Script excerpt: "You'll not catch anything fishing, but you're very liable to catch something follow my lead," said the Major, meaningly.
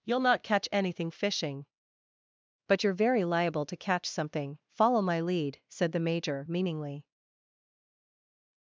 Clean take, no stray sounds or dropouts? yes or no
yes